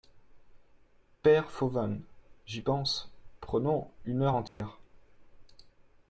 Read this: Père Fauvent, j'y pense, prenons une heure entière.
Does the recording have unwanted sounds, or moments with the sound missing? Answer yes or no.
yes